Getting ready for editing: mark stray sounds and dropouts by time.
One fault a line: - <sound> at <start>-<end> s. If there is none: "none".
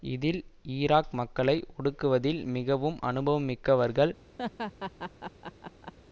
- laugh at 4.4-5.9 s